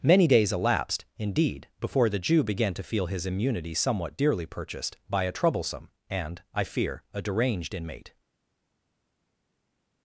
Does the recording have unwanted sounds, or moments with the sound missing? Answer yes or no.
no